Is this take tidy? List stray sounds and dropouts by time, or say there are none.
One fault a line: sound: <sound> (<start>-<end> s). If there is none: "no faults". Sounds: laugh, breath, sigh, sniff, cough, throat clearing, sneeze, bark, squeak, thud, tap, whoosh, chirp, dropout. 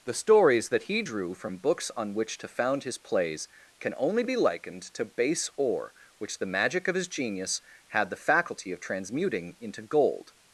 no faults